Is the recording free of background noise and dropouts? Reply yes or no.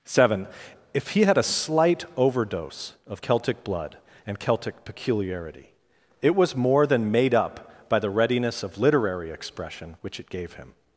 yes